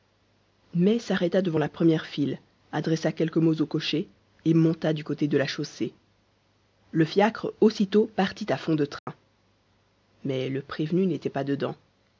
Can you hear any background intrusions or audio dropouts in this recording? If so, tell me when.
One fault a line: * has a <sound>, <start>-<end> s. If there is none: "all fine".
* has a dropout, 9.0-9.1 s